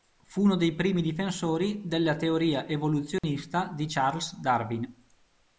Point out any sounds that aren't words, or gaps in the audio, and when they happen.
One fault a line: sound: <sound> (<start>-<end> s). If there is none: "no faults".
sound: dropout (3.2-3.2 s)